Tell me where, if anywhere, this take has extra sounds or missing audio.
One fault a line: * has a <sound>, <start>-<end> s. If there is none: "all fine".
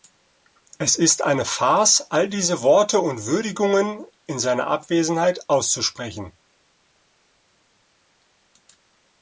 all fine